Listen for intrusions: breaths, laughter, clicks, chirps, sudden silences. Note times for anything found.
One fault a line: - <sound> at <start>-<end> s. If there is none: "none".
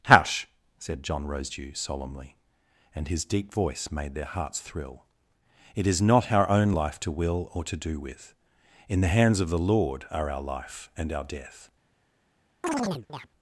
- chirp at 12.6-13.3 s